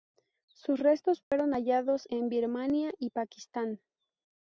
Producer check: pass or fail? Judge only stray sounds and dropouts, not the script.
fail